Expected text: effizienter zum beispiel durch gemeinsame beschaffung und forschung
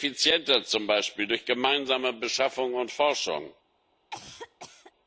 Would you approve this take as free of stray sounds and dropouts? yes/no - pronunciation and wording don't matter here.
no